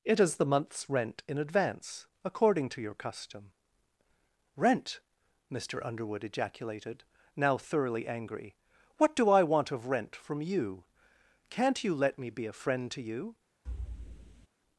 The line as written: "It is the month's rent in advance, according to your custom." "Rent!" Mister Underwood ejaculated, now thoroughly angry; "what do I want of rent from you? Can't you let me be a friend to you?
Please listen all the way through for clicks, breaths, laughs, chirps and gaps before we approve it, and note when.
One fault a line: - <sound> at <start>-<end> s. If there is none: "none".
- thud at 13.7-14.5 s